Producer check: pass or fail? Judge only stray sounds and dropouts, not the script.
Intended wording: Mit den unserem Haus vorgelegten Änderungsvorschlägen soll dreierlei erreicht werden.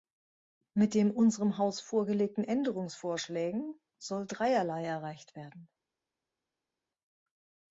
pass